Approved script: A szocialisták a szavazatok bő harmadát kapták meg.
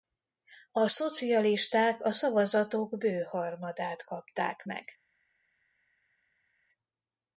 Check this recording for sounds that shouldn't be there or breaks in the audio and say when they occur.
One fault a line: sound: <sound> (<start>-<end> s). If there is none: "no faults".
no faults